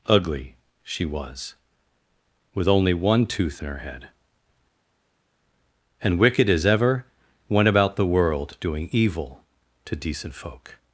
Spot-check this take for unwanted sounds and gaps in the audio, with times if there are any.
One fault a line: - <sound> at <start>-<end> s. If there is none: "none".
none